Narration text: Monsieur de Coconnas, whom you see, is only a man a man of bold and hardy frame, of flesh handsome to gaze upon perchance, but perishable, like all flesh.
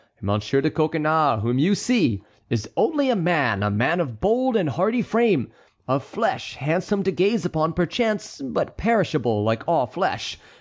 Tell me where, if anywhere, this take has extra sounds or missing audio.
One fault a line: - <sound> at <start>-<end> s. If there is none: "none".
none